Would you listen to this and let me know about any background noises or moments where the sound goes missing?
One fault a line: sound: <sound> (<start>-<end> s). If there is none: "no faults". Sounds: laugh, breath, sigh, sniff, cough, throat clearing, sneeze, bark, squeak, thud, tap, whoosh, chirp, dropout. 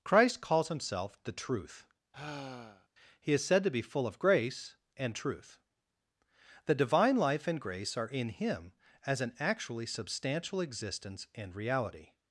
sound: sigh (2.1-2.9 s)